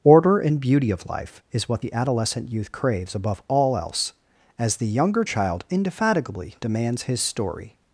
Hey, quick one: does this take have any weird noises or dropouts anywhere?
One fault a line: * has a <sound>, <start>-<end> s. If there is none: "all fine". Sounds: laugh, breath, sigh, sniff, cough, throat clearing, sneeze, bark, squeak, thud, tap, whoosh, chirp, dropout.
all fine